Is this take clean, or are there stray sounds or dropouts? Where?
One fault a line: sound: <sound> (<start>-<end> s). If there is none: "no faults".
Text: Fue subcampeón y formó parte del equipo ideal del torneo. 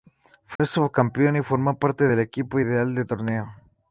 sound: dropout (0.6-0.6 s)